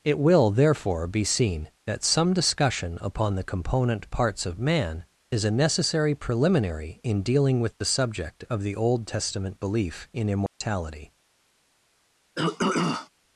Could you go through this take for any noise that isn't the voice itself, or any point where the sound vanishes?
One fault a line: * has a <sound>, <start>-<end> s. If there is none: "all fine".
* has a dropout, 10.5-10.6 s
* has a throat clearing, 12.4-13.1 s